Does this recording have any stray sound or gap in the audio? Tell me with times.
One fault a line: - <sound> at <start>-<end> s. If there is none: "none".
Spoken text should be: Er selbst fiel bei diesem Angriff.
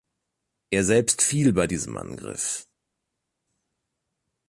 none